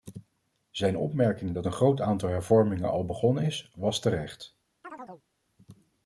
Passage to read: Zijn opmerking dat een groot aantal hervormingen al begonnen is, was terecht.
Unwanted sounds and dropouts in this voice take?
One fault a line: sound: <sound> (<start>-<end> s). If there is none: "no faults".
sound: chirp (4.8-5.3 s)